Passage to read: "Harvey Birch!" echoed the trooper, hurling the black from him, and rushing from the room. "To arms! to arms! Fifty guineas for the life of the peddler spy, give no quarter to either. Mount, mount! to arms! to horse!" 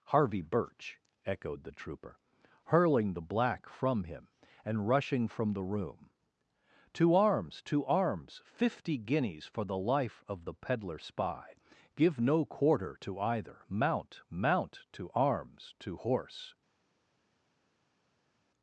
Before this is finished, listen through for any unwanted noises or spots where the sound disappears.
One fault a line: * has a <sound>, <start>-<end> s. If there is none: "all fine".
all fine